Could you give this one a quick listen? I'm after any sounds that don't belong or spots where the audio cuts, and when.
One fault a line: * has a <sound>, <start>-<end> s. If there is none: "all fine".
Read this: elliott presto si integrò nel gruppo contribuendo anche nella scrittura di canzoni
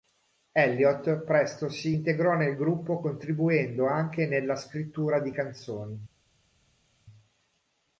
all fine